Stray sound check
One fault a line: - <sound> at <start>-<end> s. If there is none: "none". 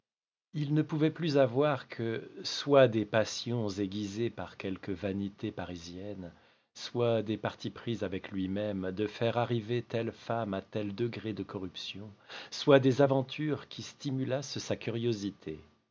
none